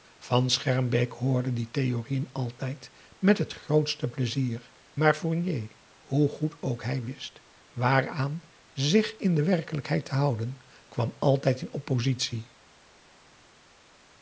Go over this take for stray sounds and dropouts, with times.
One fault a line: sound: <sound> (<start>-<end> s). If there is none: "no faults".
no faults